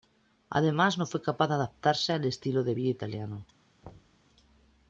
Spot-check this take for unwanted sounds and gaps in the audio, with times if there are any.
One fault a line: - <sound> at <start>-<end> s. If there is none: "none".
- thud at 3.8-4.3 s